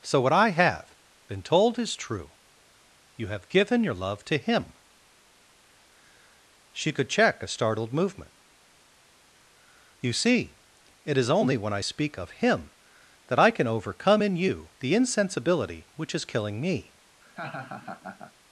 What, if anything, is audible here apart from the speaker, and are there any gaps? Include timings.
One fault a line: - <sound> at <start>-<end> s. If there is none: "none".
- laugh at 17.2-18.3 s